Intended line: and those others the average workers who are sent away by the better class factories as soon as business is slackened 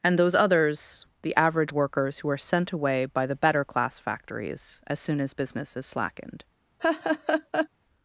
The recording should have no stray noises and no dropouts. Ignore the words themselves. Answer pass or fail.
fail